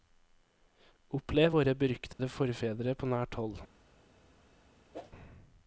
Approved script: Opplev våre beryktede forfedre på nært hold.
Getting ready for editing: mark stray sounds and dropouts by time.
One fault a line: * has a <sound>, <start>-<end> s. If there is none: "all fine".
* has a dropout, 2.1-2.2 s
* has a whoosh, 4.9-5.1 s